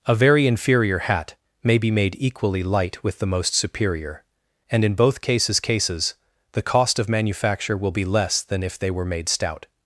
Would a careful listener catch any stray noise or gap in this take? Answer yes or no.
no